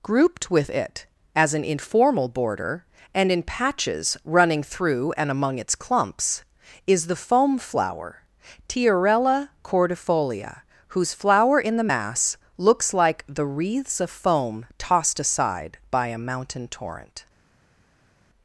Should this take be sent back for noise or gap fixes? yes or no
no